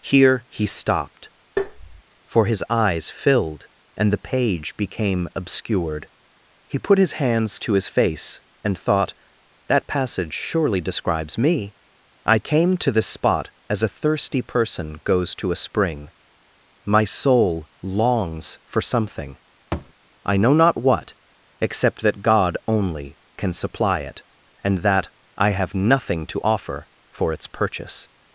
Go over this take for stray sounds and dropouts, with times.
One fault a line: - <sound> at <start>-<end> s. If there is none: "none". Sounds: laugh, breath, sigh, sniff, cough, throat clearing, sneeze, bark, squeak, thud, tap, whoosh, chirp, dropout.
- tap at 1.6-2.0 s
- thud at 19.7-19.9 s